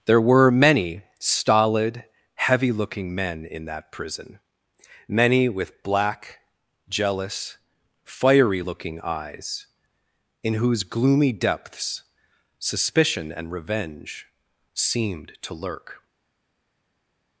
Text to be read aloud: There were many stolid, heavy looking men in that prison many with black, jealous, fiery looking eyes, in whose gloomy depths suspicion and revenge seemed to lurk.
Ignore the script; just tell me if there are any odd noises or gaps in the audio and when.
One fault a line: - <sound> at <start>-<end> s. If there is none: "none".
none